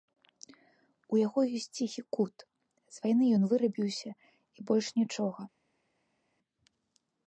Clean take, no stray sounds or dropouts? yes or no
yes